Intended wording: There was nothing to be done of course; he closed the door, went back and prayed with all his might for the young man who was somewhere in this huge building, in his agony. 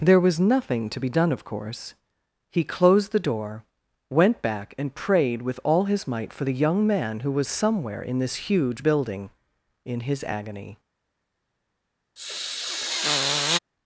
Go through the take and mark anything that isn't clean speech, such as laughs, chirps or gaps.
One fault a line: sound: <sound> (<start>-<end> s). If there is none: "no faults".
sound: sniff (12.2-13.6 s)